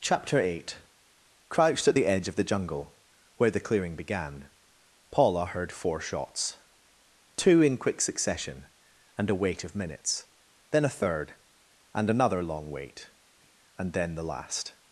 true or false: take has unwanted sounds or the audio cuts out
false